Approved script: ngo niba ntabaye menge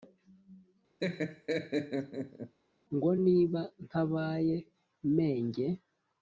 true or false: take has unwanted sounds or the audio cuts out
true